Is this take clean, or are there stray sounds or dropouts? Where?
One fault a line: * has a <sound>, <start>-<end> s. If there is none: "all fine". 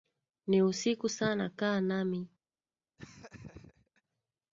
* has a laugh, 3.0-4.0 s